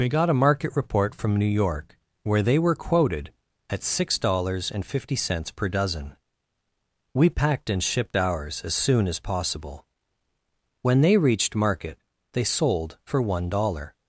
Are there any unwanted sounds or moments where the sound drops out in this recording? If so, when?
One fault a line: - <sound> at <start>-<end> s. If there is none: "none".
none